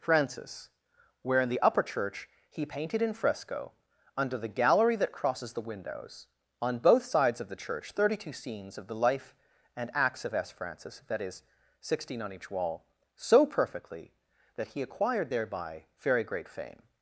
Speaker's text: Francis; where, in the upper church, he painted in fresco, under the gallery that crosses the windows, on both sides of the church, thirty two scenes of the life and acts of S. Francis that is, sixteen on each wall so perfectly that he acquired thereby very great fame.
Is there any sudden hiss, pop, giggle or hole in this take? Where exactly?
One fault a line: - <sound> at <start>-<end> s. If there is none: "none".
none